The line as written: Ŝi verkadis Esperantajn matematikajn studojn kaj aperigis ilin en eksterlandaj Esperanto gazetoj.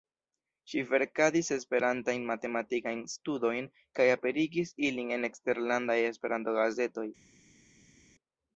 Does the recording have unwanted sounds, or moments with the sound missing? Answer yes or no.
no